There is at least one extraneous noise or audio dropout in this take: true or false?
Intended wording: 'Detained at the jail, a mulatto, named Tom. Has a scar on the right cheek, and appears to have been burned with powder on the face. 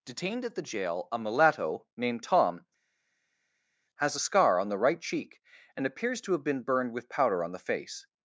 false